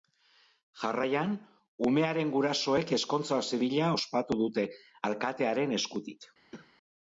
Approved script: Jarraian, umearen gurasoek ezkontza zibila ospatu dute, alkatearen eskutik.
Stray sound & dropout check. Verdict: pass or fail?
fail